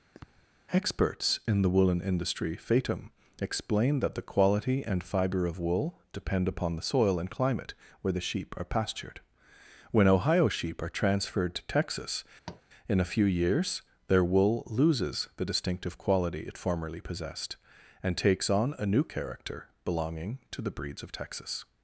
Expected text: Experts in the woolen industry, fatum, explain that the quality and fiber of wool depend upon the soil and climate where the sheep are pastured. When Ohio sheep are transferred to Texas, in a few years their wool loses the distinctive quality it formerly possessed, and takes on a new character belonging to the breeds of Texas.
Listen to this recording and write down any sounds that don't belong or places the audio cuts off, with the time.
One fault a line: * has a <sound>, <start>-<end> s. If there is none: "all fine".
* has a sniff, 0.1-0.4 s
* has a tap, 12.5-12.6 s